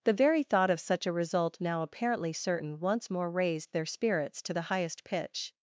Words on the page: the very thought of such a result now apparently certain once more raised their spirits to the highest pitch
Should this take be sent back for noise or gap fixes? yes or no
no